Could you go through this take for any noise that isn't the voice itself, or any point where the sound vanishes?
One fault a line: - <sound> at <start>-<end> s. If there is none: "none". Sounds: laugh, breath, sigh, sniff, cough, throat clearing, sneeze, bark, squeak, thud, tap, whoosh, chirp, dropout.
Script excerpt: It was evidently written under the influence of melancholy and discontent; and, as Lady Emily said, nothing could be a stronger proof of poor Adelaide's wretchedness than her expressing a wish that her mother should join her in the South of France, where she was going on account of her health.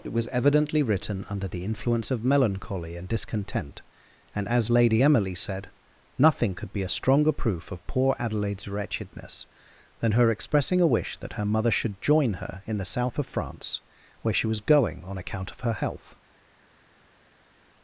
none